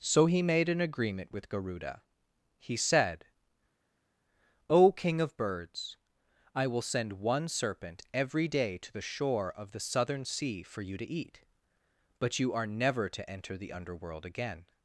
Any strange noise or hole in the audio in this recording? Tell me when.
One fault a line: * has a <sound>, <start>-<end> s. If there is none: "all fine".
all fine